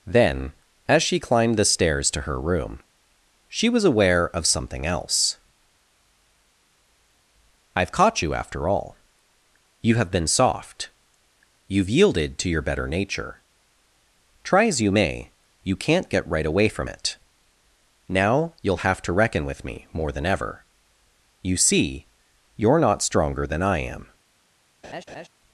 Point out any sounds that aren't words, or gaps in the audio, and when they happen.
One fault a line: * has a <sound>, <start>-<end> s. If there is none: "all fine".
* has a laugh, 24.8-25.3 s